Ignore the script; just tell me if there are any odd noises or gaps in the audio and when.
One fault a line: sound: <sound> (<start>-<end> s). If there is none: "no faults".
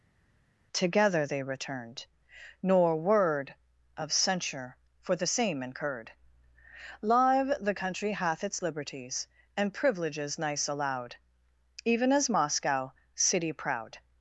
no faults